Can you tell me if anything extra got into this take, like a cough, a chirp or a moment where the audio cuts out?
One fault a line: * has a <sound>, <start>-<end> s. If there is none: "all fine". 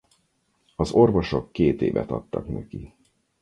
all fine